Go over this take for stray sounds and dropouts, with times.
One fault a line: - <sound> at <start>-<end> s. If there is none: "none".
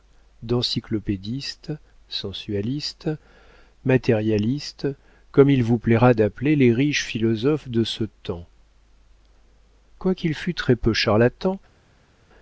none